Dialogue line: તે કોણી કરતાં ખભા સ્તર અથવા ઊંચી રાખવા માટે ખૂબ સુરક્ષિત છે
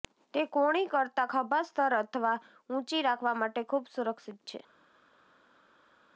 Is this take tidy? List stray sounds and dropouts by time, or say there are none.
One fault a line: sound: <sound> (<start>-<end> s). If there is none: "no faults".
no faults